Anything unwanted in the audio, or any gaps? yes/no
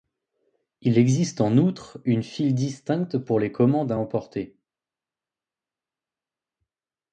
no